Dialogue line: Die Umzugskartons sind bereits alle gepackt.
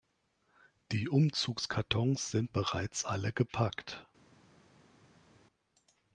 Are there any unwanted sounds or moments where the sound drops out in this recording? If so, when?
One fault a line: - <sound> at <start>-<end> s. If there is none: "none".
none